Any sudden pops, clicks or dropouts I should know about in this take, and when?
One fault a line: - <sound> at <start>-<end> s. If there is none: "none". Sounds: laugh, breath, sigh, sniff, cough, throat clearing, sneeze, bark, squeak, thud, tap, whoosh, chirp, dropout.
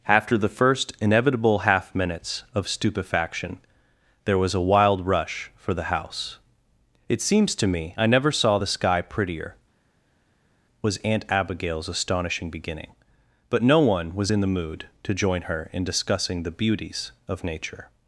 none